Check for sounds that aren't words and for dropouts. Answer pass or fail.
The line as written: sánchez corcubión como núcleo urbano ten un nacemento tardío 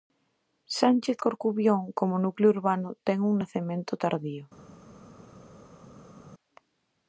pass